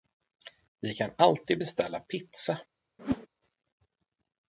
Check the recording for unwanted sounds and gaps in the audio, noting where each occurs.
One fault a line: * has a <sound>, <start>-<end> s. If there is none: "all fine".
* has a whoosh, 3.0-3.3 s